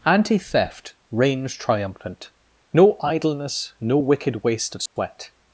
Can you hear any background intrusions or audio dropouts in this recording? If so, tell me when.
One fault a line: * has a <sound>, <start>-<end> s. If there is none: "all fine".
* has a dropout, 4.9-5.0 s